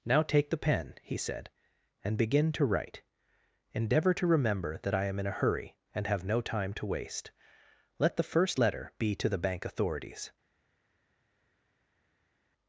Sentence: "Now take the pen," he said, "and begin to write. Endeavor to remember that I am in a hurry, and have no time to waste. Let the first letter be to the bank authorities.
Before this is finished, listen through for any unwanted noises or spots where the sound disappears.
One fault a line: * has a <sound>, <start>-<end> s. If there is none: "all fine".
all fine